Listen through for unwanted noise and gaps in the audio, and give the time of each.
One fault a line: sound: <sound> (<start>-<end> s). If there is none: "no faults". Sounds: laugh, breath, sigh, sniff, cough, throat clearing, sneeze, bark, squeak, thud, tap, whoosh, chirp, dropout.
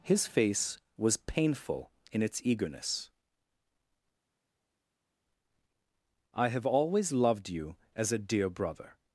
no faults